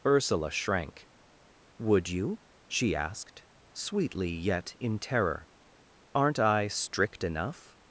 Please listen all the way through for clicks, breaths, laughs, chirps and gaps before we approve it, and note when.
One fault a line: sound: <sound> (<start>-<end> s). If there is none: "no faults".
no faults